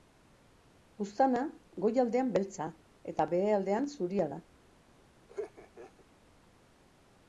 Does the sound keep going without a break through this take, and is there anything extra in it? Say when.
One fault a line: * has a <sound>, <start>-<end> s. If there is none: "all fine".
* has a laugh, 5.3-6.0 s